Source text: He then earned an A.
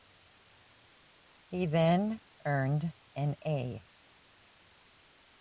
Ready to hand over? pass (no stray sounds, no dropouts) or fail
pass